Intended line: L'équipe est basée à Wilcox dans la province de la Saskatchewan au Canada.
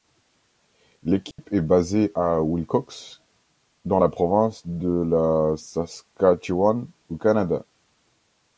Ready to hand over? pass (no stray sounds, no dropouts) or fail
fail